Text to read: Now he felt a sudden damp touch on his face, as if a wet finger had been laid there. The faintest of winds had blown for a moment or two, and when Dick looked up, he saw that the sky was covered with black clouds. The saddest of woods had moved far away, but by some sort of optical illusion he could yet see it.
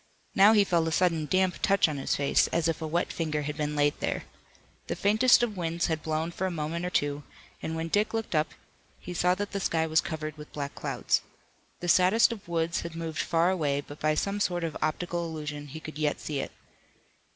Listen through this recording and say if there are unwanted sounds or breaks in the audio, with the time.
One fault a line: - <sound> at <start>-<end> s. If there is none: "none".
none